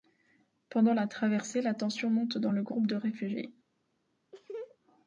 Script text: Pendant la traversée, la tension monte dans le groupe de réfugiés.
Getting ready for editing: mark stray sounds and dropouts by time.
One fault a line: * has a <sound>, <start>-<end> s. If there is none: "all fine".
* has a laugh, 4.3-4.8 s